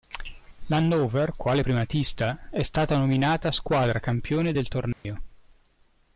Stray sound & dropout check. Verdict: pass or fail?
fail